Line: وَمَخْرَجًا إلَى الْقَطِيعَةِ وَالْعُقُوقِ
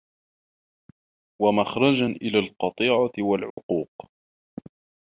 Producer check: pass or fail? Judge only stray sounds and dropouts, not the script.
fail